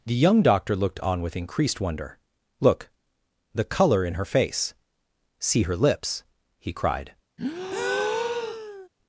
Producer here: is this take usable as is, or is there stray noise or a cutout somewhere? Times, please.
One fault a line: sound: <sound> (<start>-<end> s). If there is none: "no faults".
sound: breath (7.4-8.9 s)